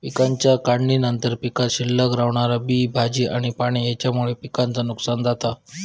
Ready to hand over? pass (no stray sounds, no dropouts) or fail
pass